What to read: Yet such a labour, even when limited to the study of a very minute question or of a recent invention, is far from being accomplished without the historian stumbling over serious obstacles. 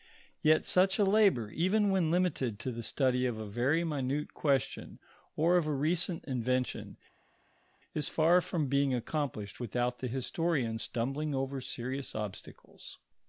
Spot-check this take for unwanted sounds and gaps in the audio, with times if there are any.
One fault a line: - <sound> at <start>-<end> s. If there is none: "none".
none